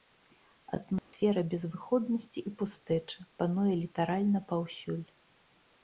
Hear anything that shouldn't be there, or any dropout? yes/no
yes